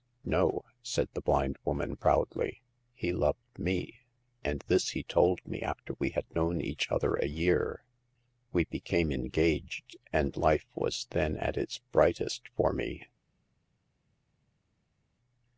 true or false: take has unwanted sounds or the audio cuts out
false